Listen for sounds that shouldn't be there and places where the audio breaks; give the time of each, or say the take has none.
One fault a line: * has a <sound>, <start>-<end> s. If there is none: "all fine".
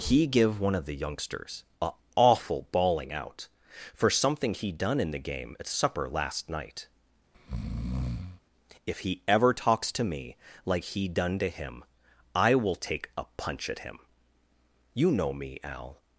* has a breath, 7.3-8.4 s